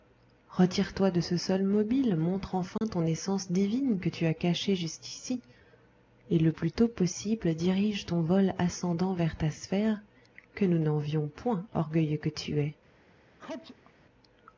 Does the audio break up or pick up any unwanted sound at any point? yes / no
yes